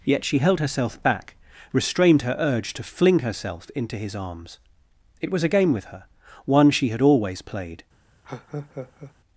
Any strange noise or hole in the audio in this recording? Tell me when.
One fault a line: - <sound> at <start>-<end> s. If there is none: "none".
- laugh at 8.2-9.1 s